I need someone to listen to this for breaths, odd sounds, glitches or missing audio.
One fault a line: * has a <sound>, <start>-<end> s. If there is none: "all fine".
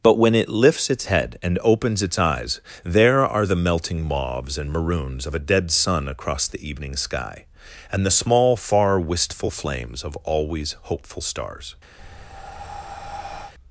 * has a breath, 12.0-13.5 s